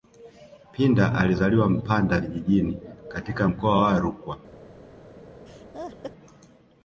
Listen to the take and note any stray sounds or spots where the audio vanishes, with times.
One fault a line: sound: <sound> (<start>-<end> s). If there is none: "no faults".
sound: laugh (5.5-6.1 s)